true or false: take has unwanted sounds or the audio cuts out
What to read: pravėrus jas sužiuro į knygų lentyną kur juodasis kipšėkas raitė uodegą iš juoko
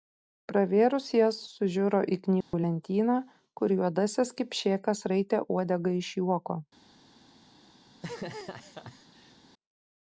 true